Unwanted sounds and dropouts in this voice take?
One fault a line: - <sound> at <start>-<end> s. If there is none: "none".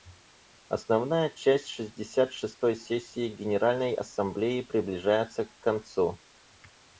none